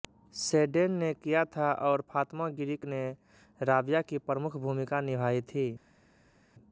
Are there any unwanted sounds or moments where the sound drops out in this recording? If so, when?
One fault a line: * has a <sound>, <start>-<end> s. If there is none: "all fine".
all fine